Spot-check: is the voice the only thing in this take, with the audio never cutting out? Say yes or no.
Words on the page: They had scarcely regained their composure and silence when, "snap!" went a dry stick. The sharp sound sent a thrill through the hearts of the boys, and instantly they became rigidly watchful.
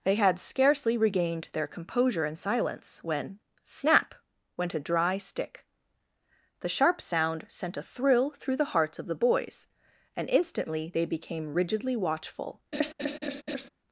no